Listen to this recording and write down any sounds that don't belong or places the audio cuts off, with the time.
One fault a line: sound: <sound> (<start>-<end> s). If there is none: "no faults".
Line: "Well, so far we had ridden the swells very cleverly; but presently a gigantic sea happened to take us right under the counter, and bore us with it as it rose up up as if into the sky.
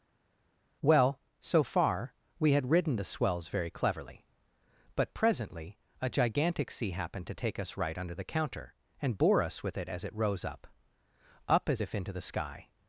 no faults